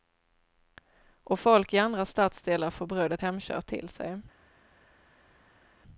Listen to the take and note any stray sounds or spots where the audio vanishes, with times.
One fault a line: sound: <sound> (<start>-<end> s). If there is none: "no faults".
no faults